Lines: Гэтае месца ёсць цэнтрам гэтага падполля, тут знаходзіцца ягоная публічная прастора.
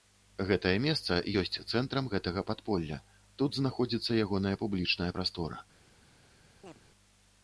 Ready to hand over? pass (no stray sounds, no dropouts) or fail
fail